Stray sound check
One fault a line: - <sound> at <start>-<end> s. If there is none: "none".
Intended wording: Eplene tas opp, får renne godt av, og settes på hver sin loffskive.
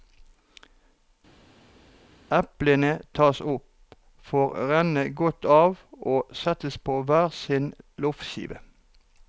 none